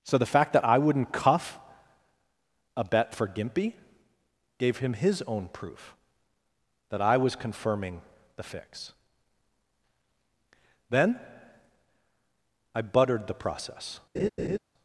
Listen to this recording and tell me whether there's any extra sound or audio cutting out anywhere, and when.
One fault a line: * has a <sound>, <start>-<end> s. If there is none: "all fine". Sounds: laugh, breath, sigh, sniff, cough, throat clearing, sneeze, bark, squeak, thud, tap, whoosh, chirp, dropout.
* has a laugh, 14.1-14.6 s